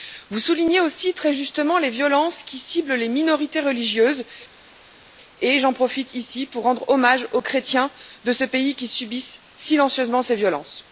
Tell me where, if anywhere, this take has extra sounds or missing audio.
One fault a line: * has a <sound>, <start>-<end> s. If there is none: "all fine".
all fine